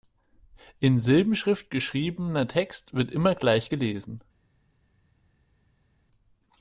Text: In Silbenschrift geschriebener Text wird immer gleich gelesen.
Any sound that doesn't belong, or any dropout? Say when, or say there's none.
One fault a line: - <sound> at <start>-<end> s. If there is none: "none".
none